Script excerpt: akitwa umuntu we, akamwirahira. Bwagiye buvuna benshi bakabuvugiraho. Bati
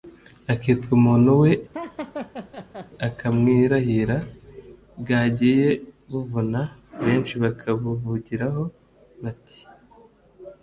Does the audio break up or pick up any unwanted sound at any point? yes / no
yes